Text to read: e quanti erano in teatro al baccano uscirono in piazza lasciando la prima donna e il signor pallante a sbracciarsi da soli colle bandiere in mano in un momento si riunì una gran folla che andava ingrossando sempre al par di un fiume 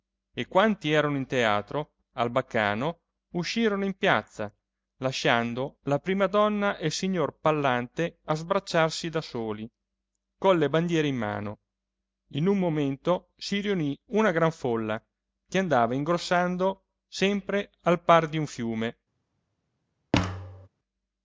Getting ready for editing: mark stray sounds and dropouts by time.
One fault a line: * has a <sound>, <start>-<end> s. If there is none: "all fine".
* has a thud, 20.1-20.7 s